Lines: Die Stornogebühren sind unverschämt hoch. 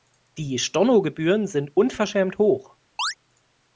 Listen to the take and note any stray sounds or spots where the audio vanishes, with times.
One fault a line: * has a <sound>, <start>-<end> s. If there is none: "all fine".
* has a chirp, 3.0-3.1 s